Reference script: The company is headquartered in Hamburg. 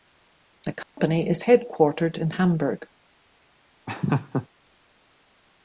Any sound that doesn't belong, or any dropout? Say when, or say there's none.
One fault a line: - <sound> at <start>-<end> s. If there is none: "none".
- dropout at 0.8-1.0 s
- laugh at 3.9-4.5 s